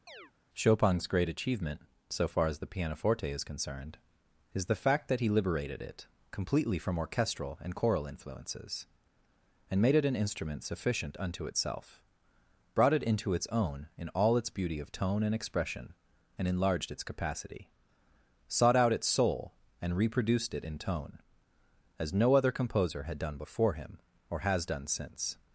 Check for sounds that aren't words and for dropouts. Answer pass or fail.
fail